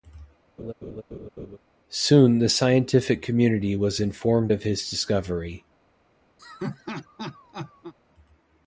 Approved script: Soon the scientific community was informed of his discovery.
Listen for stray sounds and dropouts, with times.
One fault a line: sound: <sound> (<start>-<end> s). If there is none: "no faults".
sound: laugh (0.6-1.6 s)
sound: laugh (6.4-7.9 s)